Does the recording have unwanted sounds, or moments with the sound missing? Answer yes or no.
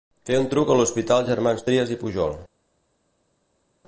no